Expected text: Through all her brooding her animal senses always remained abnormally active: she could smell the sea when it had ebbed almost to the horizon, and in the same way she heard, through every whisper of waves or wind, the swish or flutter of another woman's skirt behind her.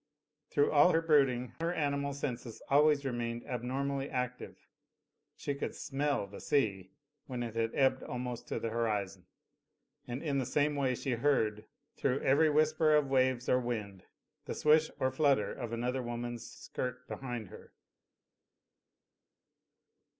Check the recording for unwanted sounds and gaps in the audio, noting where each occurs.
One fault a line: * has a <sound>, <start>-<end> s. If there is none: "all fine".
all fine